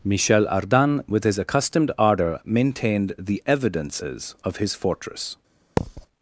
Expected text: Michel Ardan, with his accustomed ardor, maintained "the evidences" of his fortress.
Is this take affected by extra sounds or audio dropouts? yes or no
yes